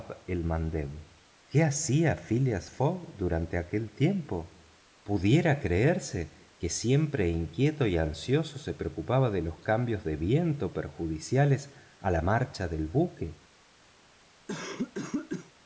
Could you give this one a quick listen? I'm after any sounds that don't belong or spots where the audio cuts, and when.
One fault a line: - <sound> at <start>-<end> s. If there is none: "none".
- cough at 14.5-15.5 s